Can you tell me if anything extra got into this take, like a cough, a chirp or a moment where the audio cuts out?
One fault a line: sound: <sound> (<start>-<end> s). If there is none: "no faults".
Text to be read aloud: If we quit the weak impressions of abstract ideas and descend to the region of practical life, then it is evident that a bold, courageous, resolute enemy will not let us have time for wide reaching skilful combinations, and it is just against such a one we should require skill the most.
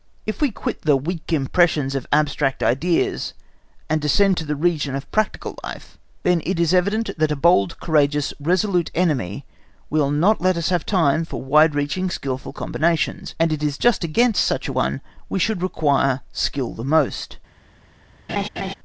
sound: laugh (18.3-18.7 s)